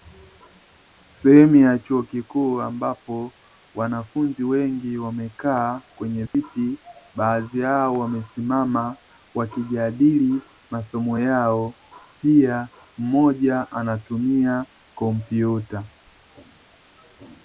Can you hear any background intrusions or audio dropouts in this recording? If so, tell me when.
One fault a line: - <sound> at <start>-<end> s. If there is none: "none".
- dropout at 6.3-6.3 s